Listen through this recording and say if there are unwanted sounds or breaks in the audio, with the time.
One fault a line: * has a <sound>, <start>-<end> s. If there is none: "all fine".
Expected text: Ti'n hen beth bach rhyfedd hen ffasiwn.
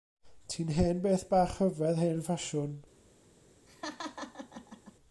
* has a laugh, 3.7-4.9 s